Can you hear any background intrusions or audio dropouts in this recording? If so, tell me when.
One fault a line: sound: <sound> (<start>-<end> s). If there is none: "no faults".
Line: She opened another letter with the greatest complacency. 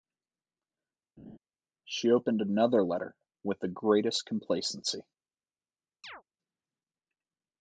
sound: laugh (1.2-1.4 s)
sound: chirp (6.0-6.2 s)